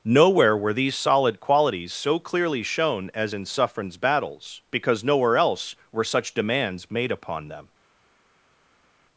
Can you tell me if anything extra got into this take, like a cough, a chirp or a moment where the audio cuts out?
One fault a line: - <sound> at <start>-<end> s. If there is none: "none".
none